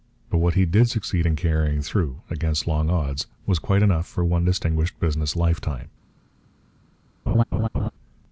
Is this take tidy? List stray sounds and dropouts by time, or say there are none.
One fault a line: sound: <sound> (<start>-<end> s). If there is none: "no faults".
sound: laugh (7.3-7.9 s)